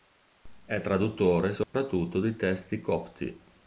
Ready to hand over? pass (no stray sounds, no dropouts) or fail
fail